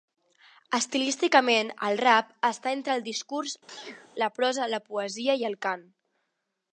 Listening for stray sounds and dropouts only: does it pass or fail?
fail